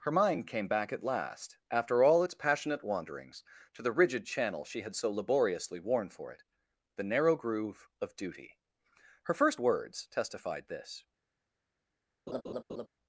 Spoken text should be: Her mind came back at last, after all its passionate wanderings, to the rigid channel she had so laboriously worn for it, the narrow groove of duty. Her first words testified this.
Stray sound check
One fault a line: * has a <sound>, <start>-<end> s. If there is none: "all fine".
* has a laugh, 12.3-12.9 s